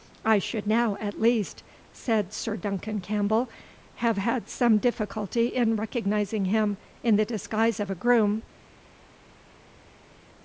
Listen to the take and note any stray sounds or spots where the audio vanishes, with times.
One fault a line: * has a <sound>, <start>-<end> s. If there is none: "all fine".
all fine